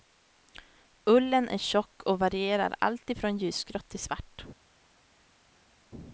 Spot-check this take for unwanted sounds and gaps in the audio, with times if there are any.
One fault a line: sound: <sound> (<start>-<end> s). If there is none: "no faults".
no faults